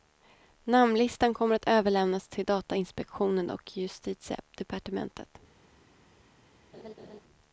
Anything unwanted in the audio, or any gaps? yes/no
yes